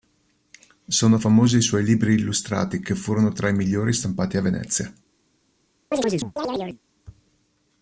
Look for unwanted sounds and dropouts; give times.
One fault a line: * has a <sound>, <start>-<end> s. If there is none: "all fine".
* has a chirp, 5.9-6.8 s